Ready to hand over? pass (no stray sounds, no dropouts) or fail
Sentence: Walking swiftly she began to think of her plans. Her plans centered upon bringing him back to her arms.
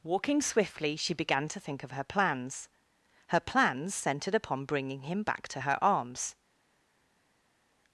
pass